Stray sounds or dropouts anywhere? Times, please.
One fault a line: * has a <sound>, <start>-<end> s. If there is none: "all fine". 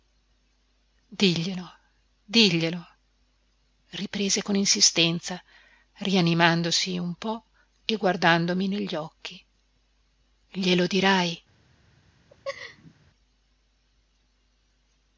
* has a laugh, 12.3-12.9 s